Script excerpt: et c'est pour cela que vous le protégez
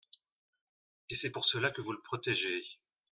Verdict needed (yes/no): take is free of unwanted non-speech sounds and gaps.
yes